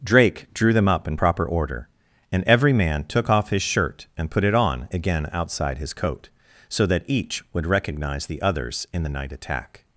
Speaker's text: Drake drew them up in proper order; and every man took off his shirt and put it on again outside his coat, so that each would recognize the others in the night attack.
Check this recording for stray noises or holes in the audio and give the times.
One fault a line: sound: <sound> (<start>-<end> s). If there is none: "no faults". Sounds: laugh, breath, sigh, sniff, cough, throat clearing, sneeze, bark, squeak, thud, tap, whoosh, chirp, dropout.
no faults